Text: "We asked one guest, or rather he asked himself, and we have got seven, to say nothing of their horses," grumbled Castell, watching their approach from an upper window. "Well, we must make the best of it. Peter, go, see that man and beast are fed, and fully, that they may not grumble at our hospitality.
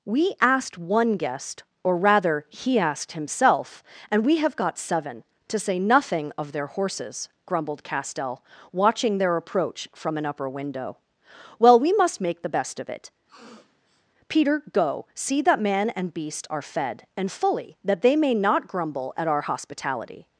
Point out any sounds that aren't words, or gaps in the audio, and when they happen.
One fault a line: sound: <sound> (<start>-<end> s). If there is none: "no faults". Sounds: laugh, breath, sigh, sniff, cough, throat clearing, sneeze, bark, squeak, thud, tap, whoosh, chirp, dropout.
sound: sniff (13.3-14.1 s)